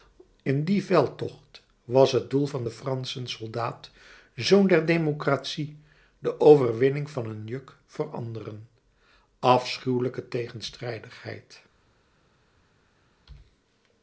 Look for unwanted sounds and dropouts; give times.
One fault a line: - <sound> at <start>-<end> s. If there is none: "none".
none